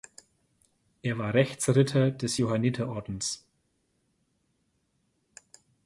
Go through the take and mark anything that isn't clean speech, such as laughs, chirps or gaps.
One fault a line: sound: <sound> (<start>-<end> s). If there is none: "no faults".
no faults